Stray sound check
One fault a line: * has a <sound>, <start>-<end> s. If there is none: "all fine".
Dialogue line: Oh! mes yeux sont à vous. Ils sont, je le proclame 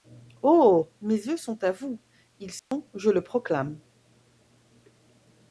* has a dropout, 2.6-2.7 s